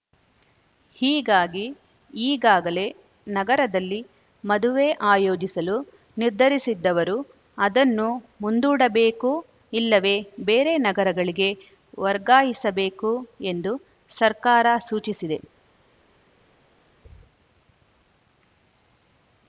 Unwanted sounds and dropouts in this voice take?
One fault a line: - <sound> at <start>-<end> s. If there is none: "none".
none